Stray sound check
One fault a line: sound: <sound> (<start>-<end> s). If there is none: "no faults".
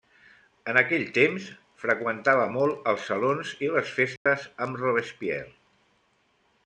sound: dropout (4.2-4.3 s)